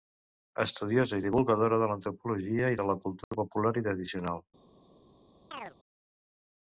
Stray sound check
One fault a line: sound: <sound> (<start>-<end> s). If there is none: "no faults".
sound: dropout (3.2-3.3 s)
sound: chirp (5.5-5.7 s)